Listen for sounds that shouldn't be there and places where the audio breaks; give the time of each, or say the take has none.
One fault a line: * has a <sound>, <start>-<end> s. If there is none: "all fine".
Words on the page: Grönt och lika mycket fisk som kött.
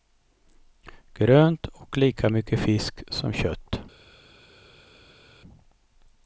all fine